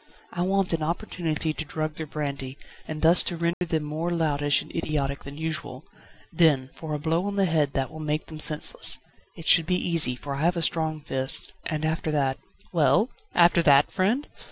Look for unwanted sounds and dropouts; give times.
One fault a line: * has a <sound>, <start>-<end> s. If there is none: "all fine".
* has a dropout, 3.5-3.6 s